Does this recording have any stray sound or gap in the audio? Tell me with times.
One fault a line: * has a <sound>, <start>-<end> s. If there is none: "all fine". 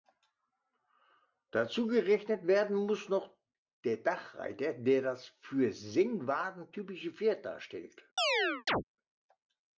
* has a chirp, 8.2-8.8 s